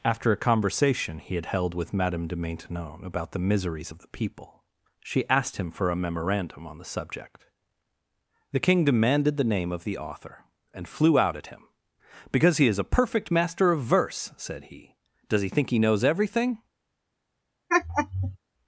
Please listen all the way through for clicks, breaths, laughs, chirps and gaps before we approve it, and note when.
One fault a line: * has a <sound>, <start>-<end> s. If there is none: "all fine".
* has a laugh, 17.7-18.4 s